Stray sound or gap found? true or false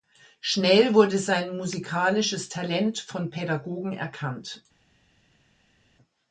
false